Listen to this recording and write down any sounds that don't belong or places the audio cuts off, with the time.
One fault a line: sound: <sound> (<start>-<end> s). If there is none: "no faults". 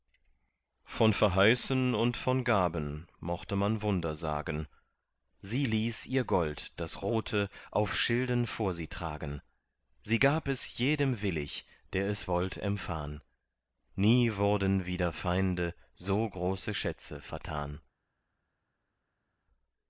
no faults